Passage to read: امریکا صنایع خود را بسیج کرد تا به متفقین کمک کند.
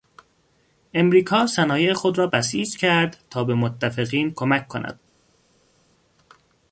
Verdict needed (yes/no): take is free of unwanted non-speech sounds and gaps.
yes